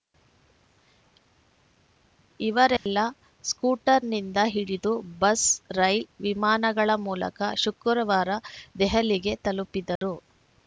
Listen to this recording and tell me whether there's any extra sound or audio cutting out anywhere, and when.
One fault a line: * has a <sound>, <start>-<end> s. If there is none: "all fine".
* has a dropout, 2.8-2.9 s
* has a dropout, 10.0-10.0 s